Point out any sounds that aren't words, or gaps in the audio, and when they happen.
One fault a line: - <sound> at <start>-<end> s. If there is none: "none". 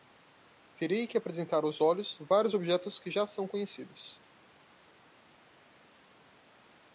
none